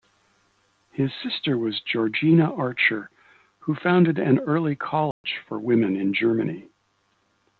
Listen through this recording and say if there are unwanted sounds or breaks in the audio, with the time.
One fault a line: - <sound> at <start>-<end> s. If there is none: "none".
- dropout at 5.1-5.2 s